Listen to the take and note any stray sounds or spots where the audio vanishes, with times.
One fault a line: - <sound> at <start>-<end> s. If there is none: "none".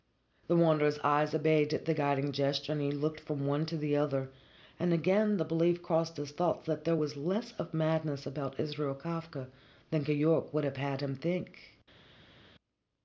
none